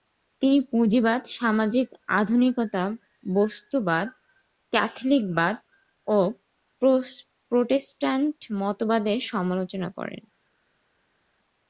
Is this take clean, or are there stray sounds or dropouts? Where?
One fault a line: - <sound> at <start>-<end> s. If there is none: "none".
none